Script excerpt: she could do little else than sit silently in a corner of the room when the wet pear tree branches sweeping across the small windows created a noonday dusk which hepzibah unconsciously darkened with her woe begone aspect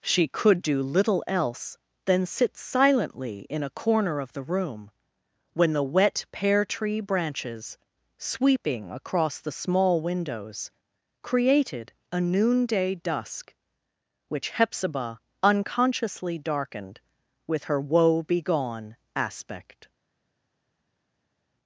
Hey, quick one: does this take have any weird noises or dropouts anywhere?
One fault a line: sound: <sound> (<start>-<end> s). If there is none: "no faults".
no faults